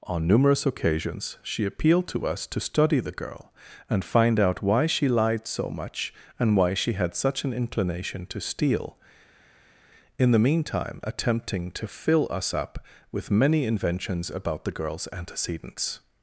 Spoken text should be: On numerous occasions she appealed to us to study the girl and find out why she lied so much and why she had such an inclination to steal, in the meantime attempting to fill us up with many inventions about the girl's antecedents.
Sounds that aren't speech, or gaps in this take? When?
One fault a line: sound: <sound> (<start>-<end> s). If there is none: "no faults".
no faults